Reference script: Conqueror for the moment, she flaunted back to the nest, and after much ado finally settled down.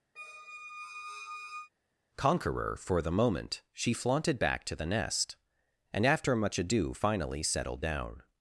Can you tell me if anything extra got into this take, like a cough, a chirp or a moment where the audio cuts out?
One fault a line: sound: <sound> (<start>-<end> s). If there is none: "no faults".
sound: squeak (0.2-1.7 s)